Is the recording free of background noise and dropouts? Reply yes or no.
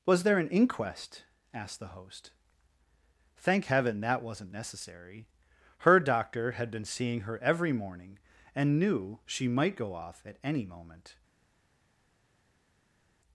yes